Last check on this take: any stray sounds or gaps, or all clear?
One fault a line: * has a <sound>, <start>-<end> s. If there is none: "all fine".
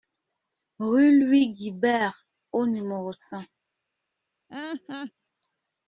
* has a laugh, 4.5-5.1 s